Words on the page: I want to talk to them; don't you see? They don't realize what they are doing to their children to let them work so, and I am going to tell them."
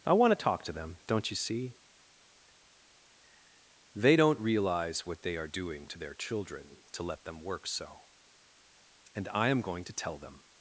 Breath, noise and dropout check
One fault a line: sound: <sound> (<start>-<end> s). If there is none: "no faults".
no faults